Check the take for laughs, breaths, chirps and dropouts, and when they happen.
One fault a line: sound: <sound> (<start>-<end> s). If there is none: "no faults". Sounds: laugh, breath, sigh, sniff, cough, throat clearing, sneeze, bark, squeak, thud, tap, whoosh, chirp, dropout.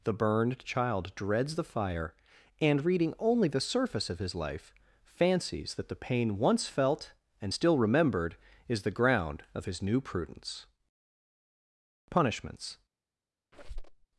sound: squeak (13.5-14.1 s)